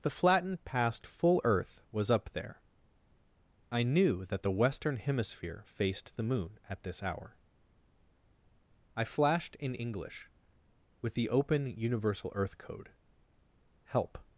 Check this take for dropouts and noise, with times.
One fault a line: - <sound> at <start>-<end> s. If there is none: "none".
none